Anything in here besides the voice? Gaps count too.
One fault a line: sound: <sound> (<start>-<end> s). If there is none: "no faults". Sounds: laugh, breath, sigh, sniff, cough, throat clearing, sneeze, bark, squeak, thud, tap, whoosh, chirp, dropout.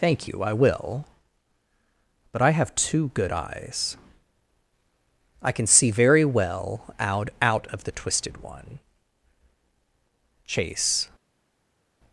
no faults